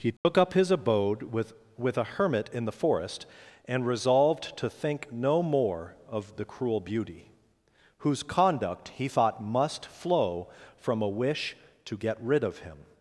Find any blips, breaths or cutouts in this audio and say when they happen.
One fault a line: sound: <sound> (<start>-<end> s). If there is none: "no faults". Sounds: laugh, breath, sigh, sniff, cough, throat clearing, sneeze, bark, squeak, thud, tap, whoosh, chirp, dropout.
sound: dropout (0.2-0.2 s)